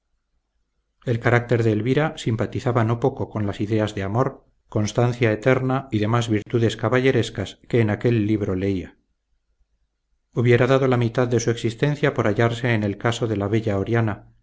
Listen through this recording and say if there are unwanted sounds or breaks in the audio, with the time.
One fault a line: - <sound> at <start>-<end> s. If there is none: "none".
- dropout at 6.4-6.5 s